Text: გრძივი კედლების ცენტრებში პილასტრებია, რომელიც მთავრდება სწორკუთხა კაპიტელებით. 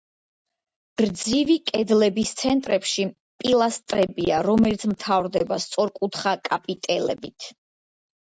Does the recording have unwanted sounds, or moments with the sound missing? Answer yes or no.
no